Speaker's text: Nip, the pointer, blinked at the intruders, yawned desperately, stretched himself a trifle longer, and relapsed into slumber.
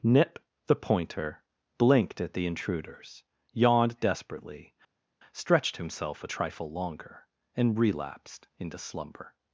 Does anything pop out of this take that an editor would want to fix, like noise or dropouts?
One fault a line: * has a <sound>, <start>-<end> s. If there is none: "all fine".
all fine